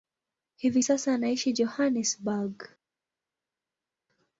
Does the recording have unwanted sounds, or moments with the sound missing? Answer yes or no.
no